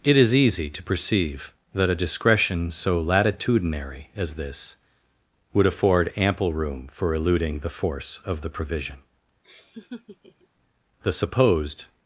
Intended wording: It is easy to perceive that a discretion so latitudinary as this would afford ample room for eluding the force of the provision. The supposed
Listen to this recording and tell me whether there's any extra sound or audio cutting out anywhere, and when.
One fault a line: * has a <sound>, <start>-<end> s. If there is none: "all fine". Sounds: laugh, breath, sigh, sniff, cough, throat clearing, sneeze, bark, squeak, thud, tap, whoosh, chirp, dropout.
* has a laugh, 9.4-10.5 s